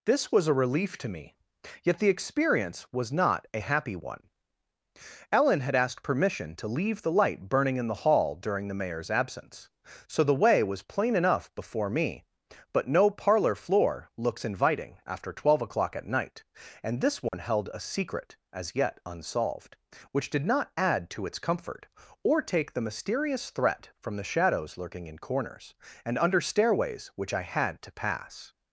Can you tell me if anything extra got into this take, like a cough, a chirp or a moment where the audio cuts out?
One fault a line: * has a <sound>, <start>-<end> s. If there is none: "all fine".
* has a dropout, 17.3-17.3 s